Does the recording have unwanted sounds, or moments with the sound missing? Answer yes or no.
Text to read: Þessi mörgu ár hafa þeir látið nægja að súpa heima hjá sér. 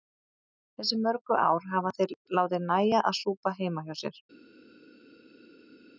no